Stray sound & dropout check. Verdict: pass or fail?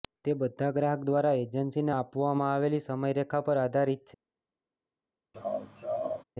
fail